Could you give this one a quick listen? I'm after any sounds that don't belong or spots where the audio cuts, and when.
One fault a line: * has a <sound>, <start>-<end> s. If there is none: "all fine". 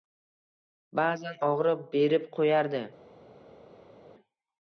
all fine